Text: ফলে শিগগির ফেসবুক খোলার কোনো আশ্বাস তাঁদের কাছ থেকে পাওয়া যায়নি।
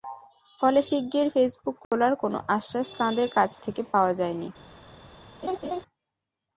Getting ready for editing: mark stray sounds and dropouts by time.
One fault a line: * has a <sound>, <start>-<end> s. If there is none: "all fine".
* has a dropout, 1.8-1.9 s
* has a laugh, 5.4-5.8 s